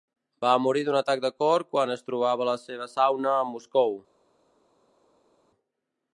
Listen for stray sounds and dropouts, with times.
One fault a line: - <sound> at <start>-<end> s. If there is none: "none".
none